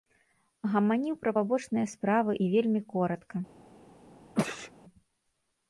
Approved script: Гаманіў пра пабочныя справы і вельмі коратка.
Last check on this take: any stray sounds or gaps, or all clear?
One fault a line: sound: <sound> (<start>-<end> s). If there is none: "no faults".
sound: sneeze (4.3-4.7 s)